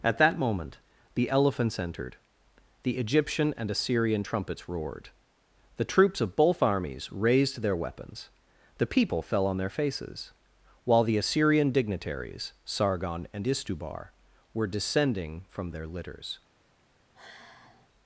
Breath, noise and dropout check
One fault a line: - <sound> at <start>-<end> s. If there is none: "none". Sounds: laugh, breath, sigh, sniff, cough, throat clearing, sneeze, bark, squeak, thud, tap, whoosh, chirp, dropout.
- sigh at 17.1-17.9 s